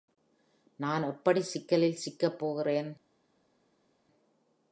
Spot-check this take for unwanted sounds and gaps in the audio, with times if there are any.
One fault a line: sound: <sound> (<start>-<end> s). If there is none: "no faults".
no faults